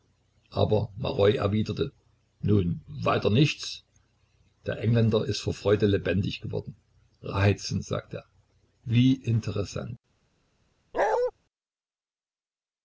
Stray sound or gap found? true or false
true